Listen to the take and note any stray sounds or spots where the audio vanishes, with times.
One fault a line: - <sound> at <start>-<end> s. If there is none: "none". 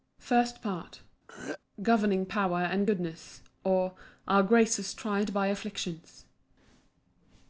- throat clearing at 1.3-1.6 s